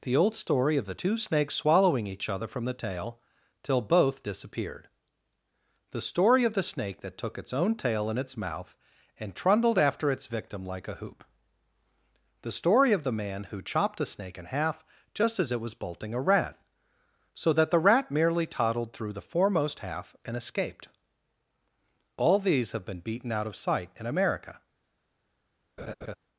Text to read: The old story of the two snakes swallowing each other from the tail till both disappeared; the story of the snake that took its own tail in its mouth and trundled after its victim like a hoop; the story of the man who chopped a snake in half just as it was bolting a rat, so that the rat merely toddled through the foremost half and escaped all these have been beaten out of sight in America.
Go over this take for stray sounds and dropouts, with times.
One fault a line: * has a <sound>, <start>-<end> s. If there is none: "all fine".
* has a laugh, 25.8-26.2 s